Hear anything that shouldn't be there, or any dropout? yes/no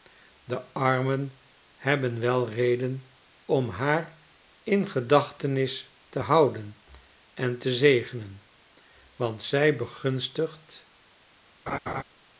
yes